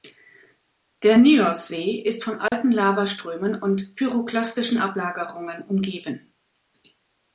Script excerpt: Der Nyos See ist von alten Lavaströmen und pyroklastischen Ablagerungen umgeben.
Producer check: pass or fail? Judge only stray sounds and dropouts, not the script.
fail